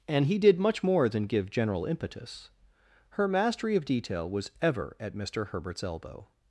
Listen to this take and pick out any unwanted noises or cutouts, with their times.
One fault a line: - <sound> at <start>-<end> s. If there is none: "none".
none